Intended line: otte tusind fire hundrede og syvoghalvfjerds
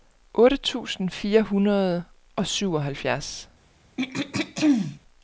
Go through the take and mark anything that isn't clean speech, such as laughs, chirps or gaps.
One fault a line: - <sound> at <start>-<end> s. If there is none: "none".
- throat clearing at 4.0-5.0 s